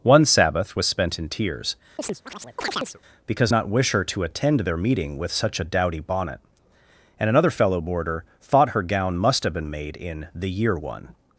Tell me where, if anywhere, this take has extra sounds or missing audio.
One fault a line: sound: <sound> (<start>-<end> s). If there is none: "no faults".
sound: chirp (2.0-3.0 s)